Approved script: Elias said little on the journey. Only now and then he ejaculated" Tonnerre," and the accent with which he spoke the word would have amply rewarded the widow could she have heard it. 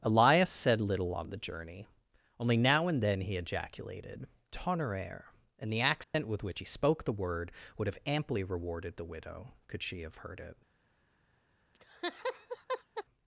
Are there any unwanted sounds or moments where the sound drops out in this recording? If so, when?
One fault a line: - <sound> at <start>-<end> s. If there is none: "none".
- dropout at 6.0-6.1 s
- laugh at 11.7-13.0 s